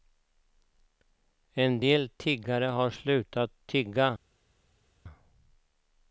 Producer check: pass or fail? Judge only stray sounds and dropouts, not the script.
pass